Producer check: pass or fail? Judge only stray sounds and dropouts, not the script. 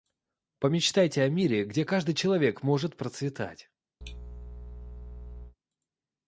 fail